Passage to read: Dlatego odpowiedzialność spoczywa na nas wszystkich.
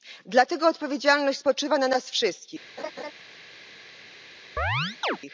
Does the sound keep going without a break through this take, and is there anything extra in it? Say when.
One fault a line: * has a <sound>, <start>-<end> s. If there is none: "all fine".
* has a laugh, 2.8-3.1 s
* has a chirp, 4.6-5.2 s